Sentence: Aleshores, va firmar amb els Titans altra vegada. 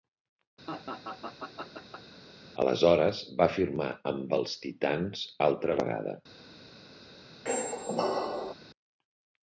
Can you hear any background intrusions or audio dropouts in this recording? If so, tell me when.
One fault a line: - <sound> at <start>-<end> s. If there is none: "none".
- laugh at 0.7-2.2 s
- squeak at 7.5-8.5 s